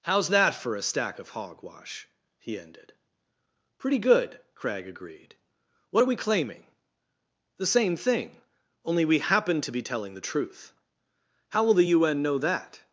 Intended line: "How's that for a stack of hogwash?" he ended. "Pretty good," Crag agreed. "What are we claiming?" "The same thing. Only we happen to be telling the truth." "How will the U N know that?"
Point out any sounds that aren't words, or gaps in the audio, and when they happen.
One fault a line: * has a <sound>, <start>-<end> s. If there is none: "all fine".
all fine